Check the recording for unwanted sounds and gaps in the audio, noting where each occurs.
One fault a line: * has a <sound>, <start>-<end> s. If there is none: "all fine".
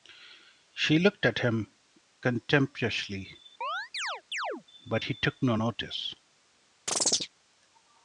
* has a chirp, 3.6-4.6 s
* has a chirp, 6.9-7.3 s